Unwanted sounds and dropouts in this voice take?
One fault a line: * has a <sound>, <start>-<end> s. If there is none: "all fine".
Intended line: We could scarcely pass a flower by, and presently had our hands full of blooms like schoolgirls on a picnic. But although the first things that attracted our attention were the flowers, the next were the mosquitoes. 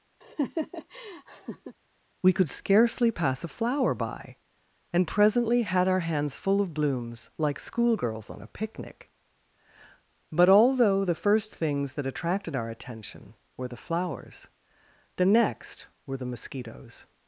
* has a laugh, 0.2-1.8 s